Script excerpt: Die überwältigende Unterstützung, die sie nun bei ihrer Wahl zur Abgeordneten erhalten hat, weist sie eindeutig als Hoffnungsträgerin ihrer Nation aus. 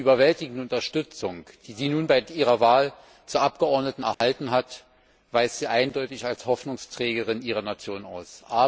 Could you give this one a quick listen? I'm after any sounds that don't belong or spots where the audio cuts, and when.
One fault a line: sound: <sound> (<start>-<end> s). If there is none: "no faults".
sound: dropout (4.1-4.2 s)